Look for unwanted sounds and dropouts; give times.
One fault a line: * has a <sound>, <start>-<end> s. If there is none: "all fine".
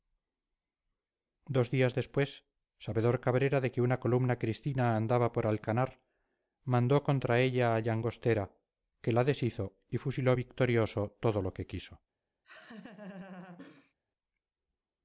* has a laugh, 12.4-13.9 s